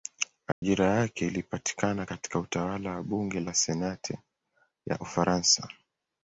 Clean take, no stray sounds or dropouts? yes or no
no